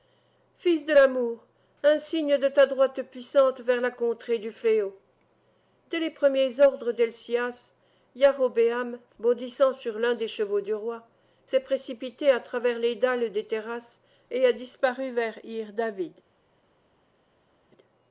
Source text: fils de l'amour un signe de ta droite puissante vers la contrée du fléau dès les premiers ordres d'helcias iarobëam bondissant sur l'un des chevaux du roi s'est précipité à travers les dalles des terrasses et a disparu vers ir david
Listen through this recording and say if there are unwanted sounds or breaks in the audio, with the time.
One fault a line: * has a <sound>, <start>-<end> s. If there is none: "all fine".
all fine